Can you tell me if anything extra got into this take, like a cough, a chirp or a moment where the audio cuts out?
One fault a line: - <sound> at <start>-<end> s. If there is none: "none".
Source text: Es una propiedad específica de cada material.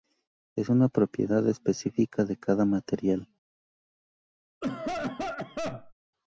- cough at 4.6-5.9 s